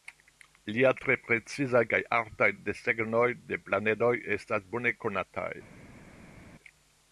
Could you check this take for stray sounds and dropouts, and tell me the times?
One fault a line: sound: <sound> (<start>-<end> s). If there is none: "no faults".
no faults